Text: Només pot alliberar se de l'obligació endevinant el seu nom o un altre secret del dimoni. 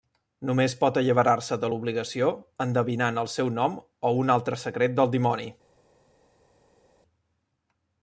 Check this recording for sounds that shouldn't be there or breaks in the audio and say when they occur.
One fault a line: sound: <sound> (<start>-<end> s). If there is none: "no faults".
no faults